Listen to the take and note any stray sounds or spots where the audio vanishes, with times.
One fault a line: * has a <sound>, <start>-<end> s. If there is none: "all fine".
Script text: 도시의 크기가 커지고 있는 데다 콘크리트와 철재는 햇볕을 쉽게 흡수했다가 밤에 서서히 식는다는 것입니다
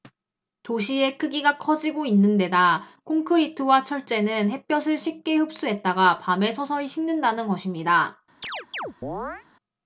* has a chirp, 8.4-9.5 s